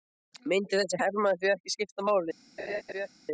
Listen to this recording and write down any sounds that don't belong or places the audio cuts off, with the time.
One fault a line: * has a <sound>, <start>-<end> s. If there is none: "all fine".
* has a laugh, 2.6-3.1 s